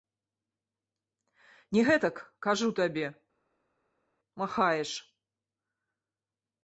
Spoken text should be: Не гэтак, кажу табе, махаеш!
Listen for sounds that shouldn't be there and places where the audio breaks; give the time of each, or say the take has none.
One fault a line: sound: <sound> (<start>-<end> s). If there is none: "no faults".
no faults